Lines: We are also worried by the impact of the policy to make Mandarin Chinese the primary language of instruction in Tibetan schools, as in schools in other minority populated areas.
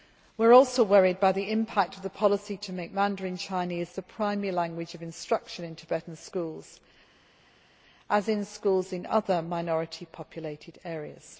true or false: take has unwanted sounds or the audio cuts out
false